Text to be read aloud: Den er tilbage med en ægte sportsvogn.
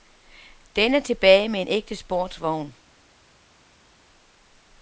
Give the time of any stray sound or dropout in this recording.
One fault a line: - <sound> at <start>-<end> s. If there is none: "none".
none